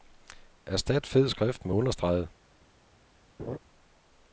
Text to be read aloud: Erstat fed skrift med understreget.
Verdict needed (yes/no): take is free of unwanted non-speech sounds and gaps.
no